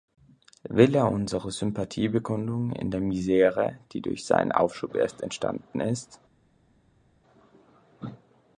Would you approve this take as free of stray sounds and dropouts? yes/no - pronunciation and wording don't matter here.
yes